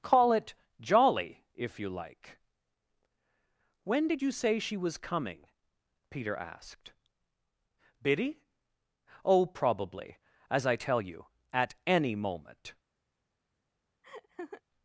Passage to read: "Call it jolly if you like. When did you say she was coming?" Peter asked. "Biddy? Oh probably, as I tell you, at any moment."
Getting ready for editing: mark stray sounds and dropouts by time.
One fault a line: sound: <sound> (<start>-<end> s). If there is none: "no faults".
sound: laugh (14.0-14.6 s)